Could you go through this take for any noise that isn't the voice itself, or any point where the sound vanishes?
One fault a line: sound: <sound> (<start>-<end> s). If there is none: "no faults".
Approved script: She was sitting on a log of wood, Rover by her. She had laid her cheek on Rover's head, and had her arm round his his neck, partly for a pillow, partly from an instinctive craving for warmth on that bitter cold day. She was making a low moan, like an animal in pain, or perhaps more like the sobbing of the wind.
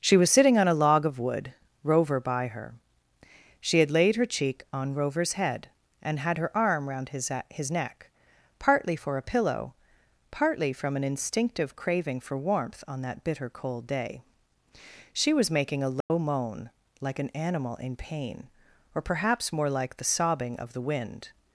sound: dropout (16.0-16.1 s)